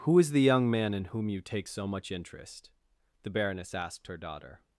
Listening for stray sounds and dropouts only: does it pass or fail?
pass